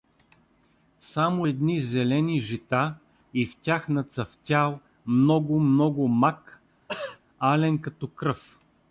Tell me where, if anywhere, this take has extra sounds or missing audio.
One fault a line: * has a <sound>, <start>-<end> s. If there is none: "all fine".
* has a throat clearing, 6.9-7.2 s